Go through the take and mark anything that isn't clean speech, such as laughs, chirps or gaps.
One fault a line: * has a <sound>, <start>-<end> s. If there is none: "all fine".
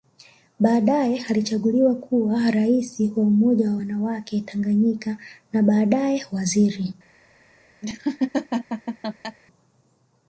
* has a laugh, 7.8-9.4 s